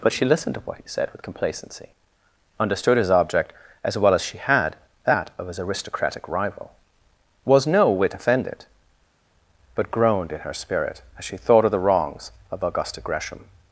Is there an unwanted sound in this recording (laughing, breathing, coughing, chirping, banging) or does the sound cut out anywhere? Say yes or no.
no